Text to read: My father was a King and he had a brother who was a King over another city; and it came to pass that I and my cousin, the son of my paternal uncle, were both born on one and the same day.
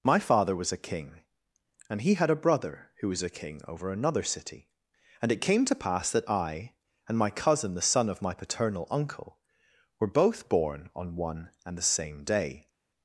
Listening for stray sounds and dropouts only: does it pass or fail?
pass